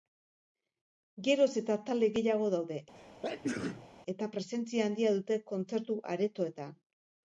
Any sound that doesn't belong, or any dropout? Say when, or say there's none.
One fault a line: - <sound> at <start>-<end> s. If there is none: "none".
- sneeze at 3.0-3.9 s